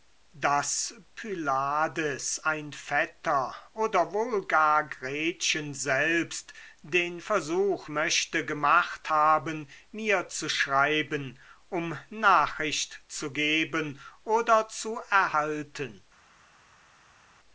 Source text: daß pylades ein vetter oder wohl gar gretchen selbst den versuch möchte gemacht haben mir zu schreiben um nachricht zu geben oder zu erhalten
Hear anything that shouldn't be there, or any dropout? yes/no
no